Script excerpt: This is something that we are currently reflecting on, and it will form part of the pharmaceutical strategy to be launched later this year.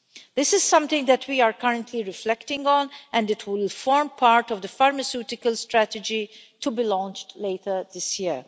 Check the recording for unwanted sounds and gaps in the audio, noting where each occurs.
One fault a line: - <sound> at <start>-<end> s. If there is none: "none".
none